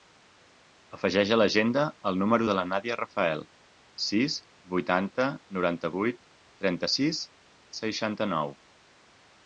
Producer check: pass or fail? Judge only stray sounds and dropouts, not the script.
pass